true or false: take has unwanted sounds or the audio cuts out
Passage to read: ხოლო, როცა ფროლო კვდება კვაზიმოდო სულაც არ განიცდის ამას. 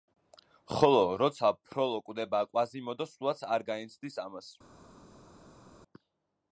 false